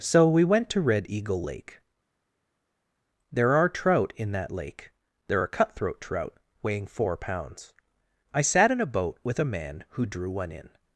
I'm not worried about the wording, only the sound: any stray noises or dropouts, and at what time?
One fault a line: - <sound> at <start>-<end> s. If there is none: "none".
none